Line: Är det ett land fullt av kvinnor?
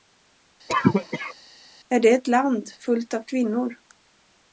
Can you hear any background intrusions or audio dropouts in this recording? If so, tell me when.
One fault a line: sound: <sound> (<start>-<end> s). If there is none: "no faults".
sound: cough (0.7-1.3 s)